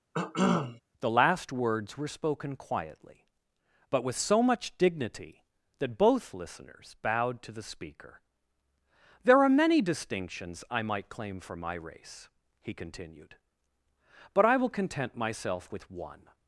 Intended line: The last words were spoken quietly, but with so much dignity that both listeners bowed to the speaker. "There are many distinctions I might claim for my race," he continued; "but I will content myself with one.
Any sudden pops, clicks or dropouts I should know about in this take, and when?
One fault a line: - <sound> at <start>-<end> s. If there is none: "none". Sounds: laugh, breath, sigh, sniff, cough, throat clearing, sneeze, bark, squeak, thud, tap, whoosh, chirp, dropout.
- cough at 0.1-0.8 s